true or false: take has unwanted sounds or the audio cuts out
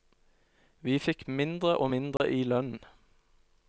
true